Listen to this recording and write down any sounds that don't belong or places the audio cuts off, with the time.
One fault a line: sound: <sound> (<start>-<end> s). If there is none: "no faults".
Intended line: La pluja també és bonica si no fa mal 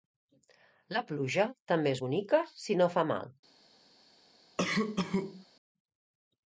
sound: cough (4.6-5.5 s)